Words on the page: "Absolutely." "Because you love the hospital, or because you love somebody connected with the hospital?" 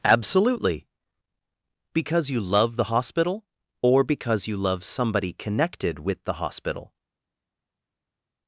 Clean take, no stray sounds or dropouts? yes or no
yes